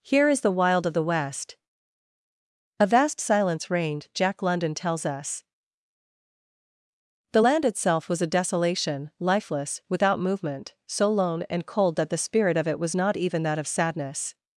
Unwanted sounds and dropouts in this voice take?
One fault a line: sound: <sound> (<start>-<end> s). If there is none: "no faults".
no faults